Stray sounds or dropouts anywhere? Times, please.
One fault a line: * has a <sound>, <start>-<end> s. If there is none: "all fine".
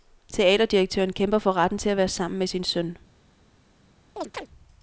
* has a chirp, 4.2-4.5 s